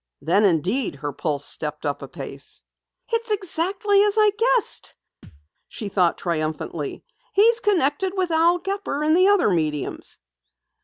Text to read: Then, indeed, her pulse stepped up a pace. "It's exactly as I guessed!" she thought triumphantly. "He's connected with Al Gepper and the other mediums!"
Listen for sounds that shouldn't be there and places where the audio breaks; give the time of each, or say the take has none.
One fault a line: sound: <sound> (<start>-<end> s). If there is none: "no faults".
sound: thud (5.2-5.5 s)